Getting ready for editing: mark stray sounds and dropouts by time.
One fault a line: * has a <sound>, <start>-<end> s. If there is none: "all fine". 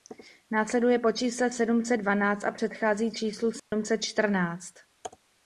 * has a dropout, 3.6-3.7 s